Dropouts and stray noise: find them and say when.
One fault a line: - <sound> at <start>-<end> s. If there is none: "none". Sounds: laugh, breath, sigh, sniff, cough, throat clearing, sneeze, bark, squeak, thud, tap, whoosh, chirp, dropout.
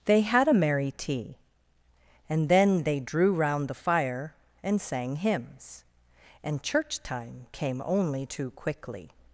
none